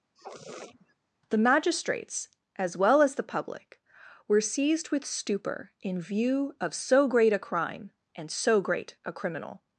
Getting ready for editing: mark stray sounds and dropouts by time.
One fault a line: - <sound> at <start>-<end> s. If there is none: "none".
- sniff at 0.1-1.0 s